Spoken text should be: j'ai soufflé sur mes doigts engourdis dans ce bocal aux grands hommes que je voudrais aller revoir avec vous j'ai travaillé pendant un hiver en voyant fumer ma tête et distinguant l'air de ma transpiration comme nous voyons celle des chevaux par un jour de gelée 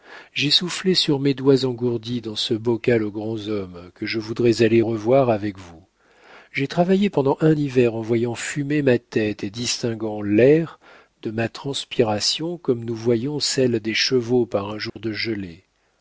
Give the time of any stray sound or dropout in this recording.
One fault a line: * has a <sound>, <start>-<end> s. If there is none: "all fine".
* has a dropout, 14.9-15.0 s